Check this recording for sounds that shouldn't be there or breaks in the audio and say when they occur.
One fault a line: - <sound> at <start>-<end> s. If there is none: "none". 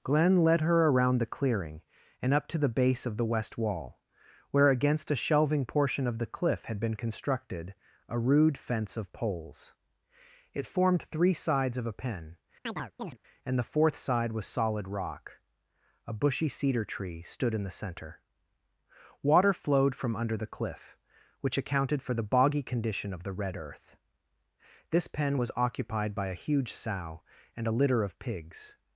- chirp at 12.7-13.2 s